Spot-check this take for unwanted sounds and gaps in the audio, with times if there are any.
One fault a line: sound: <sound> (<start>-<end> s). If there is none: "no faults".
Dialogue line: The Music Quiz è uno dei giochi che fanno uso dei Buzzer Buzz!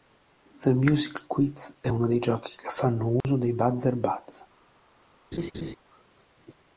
sound: dropout (3.2-3.2 s)
sound: laugh (5.3-5.8 s)